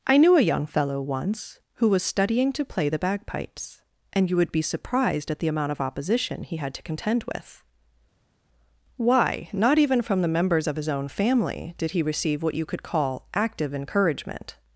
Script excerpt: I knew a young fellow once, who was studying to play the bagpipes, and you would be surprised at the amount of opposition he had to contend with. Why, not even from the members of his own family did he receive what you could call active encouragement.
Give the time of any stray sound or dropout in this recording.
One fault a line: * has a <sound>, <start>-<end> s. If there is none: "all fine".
all fine